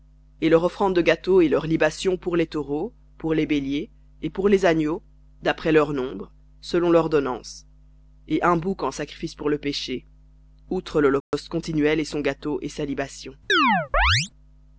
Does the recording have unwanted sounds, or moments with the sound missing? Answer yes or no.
yes